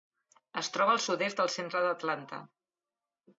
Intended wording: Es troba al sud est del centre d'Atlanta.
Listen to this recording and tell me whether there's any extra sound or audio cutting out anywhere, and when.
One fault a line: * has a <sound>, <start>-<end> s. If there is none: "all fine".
all fine